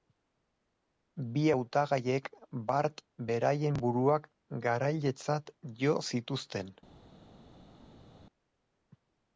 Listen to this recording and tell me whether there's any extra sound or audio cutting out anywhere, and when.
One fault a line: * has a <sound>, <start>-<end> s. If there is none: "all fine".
all fine